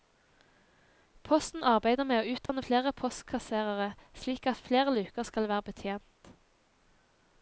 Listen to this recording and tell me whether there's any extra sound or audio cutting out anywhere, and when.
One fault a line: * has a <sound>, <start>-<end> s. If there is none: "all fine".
* has a dropout, 2.5-2.5 s